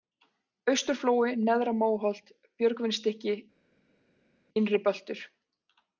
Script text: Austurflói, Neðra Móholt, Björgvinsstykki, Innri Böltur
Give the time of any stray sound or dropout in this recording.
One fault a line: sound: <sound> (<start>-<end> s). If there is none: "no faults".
no faults